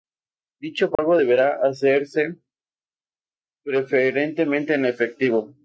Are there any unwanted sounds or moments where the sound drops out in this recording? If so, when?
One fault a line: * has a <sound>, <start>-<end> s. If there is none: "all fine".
* has a dropout, 1.0-1.0 s